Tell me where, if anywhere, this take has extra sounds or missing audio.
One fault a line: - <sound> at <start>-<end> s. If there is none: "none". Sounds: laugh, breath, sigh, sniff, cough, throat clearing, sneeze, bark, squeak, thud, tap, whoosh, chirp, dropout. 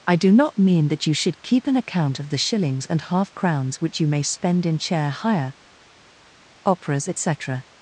none